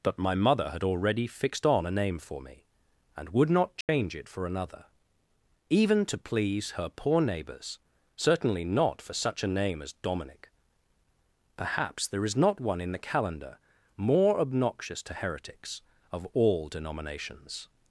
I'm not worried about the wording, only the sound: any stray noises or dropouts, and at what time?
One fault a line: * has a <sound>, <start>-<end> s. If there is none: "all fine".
* has a dropout, 3.8-3.9 s